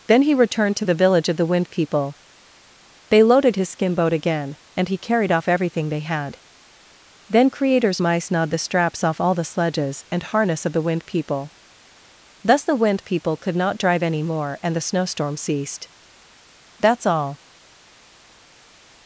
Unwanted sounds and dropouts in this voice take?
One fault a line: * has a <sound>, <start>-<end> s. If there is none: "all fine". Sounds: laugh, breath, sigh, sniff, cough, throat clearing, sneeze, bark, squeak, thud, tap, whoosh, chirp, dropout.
all fine